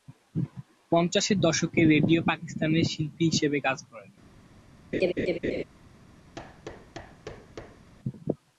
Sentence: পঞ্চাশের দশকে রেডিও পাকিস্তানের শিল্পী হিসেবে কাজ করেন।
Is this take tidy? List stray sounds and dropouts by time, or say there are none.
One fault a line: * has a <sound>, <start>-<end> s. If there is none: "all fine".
* has a laugh, 4.9-5.6 s
* has a thud, 6.4-7.9 s